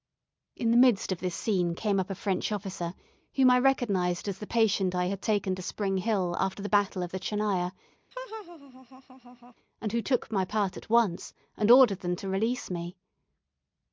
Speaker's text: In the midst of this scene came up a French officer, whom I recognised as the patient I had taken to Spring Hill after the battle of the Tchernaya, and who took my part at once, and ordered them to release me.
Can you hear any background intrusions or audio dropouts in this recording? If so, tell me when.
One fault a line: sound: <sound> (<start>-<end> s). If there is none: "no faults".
sound: laugh (8.1-9.5 s)